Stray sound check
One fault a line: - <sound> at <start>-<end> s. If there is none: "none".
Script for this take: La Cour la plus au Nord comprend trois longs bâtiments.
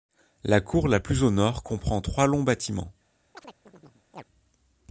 - chirp at 3.3-4.2 s